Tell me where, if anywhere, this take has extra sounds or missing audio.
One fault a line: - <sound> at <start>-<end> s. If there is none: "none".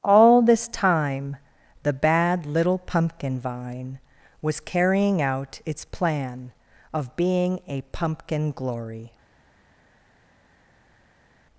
none